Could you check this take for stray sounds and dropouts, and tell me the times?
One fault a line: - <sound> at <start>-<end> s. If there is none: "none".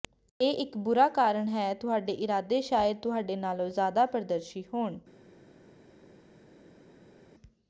none